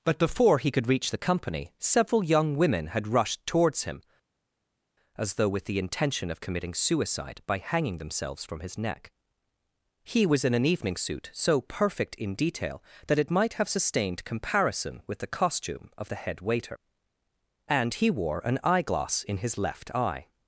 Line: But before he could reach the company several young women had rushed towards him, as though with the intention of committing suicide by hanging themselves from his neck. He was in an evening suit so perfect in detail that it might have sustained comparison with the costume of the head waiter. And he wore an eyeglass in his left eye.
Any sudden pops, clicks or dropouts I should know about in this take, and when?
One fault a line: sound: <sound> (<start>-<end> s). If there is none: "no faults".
no faults